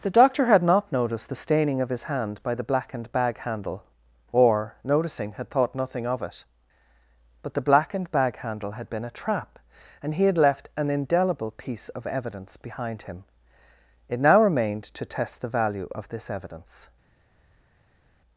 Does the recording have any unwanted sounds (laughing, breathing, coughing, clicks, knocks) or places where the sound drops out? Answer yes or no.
no